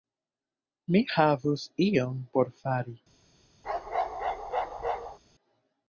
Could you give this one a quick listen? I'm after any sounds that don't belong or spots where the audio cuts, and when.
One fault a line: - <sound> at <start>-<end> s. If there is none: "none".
- bark at 3.6-5.2 s